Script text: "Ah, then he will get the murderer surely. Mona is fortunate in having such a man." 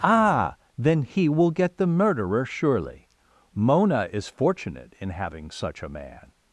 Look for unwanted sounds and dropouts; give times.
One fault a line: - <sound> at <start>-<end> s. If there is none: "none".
none